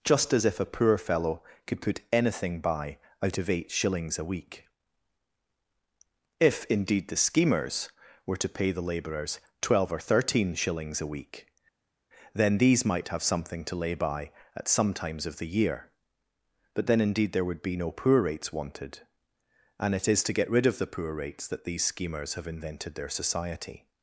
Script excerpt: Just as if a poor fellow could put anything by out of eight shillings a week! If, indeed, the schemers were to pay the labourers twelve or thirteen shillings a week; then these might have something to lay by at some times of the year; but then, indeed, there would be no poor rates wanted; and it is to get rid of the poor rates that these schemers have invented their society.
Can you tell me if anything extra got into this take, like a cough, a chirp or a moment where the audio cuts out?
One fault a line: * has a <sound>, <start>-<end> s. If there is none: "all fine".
all fine